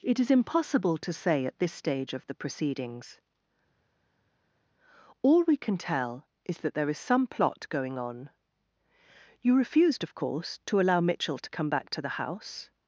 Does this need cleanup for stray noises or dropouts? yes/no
no